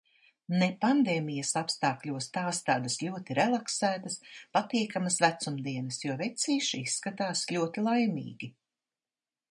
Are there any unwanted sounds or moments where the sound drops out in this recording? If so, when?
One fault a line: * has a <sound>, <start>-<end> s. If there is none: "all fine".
all fine